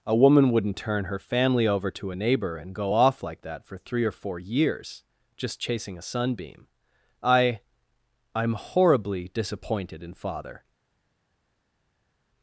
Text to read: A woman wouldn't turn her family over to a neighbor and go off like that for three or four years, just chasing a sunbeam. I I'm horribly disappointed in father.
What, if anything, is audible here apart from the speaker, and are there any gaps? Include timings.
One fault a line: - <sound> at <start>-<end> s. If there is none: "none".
none